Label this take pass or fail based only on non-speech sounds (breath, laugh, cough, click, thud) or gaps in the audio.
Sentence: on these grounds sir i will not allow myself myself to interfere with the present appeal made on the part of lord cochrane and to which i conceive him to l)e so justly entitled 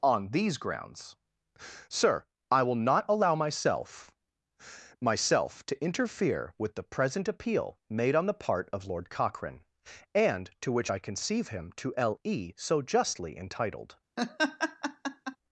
fail